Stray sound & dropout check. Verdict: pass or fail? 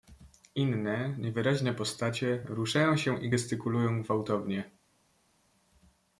pass